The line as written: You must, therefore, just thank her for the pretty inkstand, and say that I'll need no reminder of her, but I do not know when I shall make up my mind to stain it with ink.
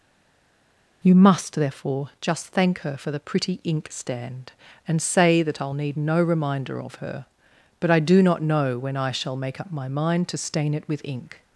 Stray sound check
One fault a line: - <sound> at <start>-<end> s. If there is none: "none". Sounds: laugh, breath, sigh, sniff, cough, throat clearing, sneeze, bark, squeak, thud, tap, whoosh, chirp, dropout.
none